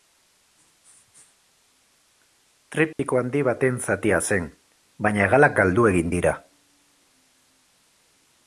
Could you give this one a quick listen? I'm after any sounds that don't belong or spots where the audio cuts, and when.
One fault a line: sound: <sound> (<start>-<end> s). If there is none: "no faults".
sound: dropout (2.9-3.0 s)